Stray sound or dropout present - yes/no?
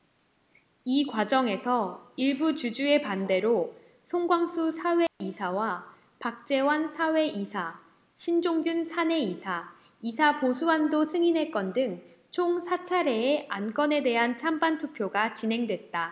yes